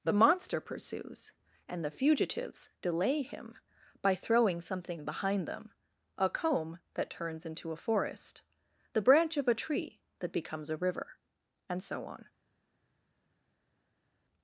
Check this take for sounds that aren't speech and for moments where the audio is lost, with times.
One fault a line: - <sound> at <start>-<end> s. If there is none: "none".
none